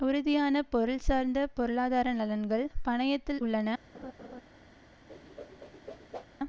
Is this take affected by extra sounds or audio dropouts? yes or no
yes